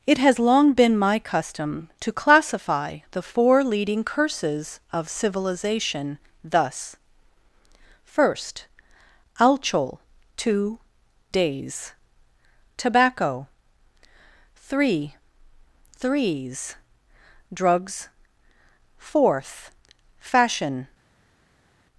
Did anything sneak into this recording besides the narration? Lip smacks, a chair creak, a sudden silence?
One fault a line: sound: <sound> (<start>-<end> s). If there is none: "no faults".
no faults